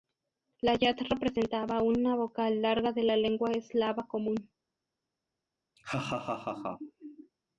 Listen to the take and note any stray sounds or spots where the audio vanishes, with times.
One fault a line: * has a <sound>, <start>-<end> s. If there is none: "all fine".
* has a laugh, 5.8-7.3 s